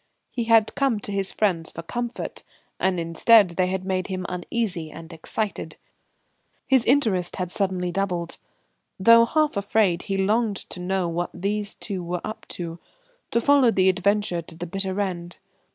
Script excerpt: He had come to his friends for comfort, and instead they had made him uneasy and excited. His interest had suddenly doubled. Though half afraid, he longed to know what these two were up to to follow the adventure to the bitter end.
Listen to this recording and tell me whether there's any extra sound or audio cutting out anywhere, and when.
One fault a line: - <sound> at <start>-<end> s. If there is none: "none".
none